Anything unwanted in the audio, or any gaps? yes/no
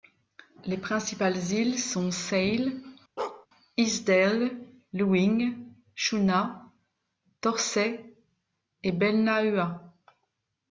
yes